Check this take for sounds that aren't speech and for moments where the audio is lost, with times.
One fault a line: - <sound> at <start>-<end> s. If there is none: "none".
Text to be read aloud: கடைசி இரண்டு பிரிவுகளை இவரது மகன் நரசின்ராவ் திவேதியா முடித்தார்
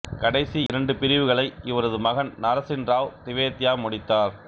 - dropout at 0.7-0.7 s